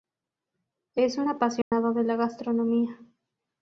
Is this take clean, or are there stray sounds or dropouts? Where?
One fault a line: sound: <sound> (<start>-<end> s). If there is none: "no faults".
sound: dropout (1.6-1.7 s)